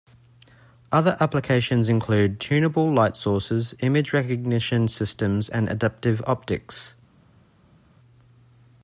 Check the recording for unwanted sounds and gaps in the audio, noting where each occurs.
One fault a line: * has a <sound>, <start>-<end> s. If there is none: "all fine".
all fine